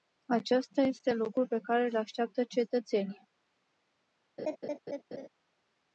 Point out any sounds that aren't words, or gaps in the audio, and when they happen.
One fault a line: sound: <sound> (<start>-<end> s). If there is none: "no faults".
sound: laugh (4.4-5.3 s)